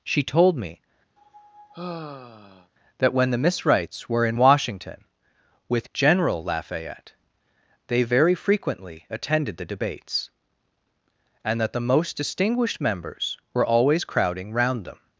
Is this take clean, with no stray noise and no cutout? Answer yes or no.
no